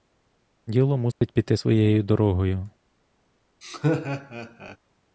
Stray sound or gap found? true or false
true